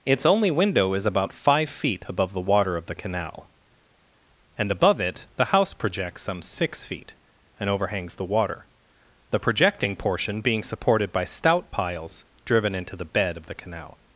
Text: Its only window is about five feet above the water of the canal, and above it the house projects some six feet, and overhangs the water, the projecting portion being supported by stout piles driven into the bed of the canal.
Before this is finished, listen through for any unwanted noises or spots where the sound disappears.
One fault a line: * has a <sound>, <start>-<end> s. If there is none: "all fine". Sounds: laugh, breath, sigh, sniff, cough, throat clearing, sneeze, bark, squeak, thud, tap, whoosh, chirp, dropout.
all fine